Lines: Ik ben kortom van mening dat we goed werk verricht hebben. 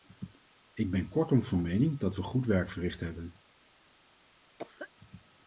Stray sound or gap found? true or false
true